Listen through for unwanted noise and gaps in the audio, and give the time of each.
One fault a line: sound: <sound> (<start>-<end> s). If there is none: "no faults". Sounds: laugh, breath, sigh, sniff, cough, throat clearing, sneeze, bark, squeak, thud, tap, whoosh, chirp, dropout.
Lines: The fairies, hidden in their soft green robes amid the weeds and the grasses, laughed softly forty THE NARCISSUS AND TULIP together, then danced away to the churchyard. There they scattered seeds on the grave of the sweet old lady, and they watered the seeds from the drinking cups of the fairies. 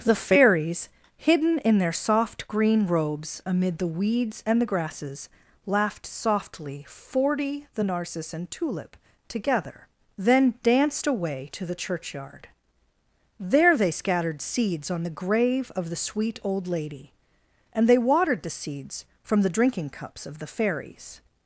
no faults